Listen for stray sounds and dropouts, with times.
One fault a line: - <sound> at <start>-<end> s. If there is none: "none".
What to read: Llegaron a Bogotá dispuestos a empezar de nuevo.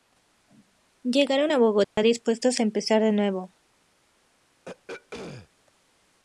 - dropout at 1.8-2.0 s
- throat clearing at 4.6-5.5 s